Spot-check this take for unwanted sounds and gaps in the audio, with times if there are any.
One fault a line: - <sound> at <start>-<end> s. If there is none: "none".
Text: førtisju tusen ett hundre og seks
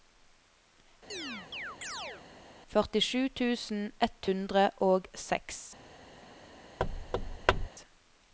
- chirp at 1.1-2.2 s
- thud at 6.8-7.7 s